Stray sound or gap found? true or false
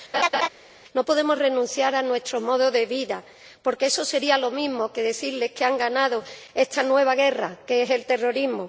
true